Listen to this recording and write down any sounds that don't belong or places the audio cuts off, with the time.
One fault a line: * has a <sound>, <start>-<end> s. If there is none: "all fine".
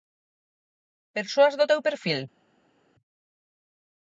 all fine